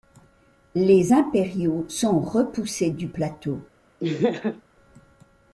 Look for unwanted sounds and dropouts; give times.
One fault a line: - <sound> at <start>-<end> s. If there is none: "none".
- laugh at 4.0-4.6 s